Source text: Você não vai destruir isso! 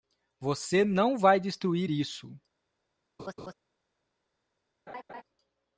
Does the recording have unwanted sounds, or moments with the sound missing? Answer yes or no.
yes